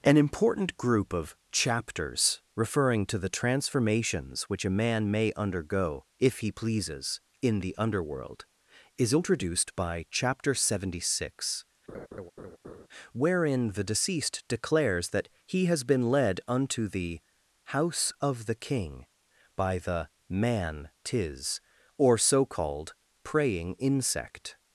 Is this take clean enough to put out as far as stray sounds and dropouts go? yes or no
no